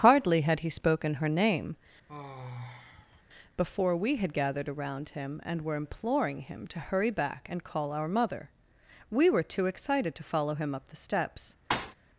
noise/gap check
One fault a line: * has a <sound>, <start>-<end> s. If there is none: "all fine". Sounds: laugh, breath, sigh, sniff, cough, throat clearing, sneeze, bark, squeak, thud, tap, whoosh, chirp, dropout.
* has a sigh, 2.1-3.2 s
* has a thud, 11.7-12.0 s